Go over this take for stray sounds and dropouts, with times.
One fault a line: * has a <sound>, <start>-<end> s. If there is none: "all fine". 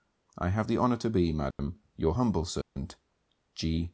* has a dropout, 1.5-1.6 s
* has a dropout, 2.6-2.8 s